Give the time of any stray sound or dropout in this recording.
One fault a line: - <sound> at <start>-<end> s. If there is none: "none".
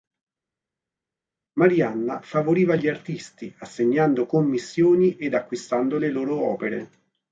none